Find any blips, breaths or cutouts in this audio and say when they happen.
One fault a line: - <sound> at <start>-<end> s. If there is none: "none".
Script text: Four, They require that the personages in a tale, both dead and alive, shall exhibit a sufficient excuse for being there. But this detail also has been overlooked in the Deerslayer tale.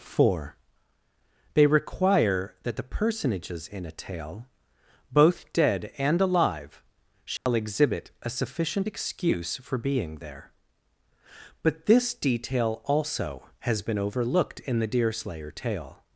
- dropout at 7.4-7.5 s